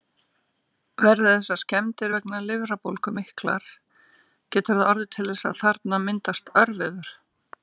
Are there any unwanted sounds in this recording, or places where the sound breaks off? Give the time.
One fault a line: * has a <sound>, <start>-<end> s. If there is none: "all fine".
all fine